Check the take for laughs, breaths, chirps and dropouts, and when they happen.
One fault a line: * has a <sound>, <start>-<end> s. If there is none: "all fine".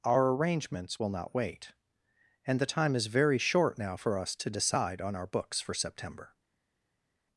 all fine